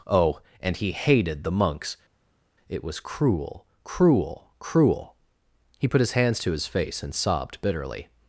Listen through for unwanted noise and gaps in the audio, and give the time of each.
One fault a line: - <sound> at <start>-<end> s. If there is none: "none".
none